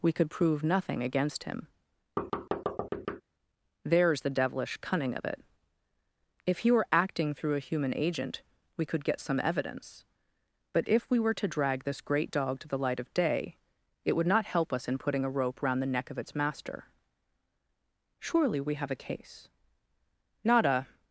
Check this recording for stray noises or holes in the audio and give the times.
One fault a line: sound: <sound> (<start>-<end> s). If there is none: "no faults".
sound: thud (2.2-3.2 s)